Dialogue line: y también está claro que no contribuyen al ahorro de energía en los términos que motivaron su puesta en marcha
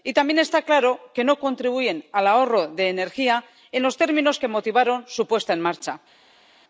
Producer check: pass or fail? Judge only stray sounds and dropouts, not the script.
pass